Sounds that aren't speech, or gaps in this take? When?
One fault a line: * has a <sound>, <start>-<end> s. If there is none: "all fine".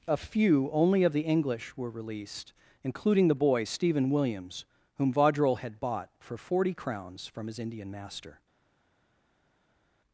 all fine